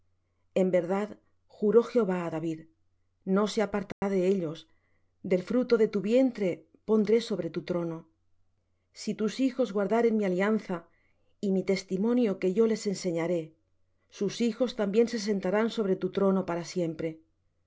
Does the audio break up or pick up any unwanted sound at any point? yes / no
yes